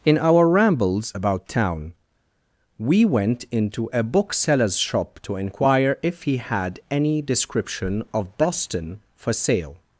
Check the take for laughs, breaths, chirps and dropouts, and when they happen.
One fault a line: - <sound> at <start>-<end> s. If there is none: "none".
none